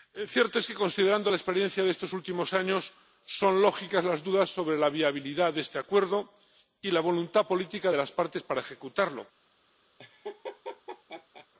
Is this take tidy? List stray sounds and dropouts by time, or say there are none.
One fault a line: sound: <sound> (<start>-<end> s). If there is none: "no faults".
sound: laugh (10.0-11.5 s)